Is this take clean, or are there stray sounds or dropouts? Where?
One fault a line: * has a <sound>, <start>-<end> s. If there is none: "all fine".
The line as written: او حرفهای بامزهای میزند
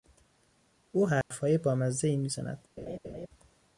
* has a dropout, 1.2-1.3 s
* has a laugh, 2.8-3.3 s